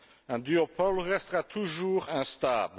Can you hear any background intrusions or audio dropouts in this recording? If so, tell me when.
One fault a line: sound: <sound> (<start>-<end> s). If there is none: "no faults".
no faults